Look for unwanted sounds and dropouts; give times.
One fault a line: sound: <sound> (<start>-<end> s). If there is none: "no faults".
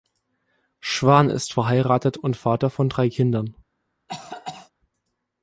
sound: cough (4.1-4.7 s)